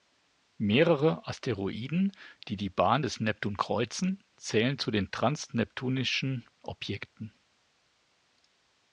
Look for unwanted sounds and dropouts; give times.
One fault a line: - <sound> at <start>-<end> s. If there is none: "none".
none